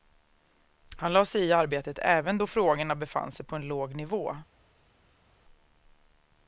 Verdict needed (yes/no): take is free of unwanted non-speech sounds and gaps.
yes